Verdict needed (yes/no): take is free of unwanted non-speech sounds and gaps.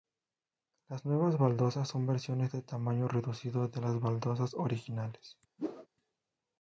no